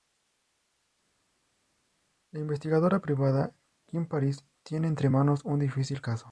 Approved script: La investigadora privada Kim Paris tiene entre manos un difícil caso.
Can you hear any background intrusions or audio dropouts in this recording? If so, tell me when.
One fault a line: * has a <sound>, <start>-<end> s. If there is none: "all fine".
all fine